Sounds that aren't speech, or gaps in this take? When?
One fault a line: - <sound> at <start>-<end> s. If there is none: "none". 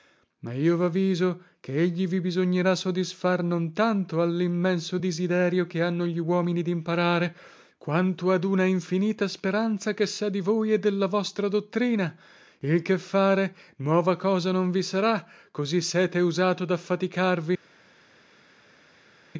none